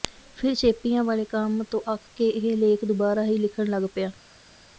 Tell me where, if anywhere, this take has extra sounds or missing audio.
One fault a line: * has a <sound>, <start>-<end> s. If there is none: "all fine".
all fine